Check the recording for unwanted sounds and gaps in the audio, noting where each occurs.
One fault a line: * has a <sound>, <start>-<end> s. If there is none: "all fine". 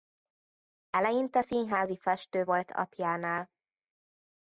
all fine